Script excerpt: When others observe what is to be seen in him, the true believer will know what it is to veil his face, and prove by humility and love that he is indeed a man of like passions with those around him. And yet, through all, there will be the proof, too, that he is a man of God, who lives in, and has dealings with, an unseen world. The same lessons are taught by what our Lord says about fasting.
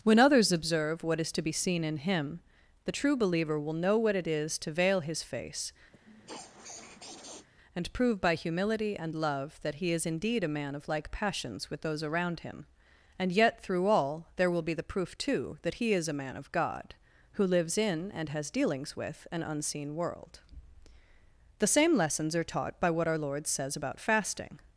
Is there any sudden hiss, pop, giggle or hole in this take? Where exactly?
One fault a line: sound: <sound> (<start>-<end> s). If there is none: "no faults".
sound: sniff (5.9-7.5 s)